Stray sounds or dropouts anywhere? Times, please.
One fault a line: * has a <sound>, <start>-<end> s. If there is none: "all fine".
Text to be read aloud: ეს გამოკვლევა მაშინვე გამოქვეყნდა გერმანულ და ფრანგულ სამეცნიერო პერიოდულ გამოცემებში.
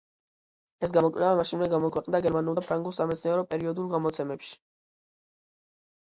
all fine